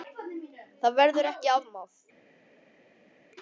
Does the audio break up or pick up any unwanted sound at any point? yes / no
no